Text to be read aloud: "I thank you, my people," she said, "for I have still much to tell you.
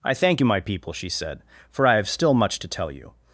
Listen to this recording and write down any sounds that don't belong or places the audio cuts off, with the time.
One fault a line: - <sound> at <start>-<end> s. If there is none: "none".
none